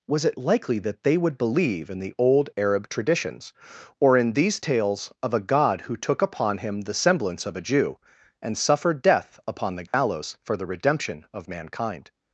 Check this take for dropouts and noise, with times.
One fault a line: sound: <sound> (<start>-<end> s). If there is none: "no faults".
sound: dropout (9.9-9.9 s)